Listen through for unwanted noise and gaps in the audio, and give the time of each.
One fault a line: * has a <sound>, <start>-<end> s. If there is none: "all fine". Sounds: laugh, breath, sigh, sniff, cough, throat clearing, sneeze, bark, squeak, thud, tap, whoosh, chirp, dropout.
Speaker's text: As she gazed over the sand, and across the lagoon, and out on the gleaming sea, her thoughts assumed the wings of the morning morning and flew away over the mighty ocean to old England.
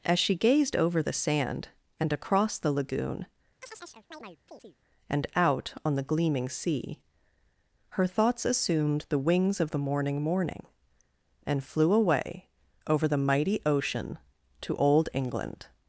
* has a chirp, 3.6-4.8 s